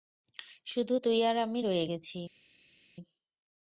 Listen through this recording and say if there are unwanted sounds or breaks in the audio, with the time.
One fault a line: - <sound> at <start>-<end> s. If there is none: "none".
none